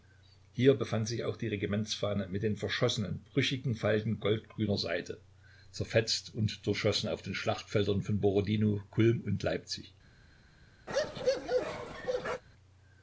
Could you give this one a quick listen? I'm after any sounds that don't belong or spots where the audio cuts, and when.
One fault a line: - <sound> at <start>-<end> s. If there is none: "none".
- bark at 10.9-12.4 s